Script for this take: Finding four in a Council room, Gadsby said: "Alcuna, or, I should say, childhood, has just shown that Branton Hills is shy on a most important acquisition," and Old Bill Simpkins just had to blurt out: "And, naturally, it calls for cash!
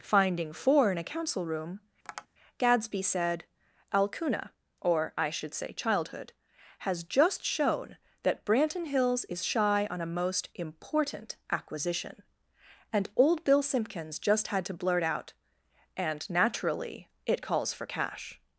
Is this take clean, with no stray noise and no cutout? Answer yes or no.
no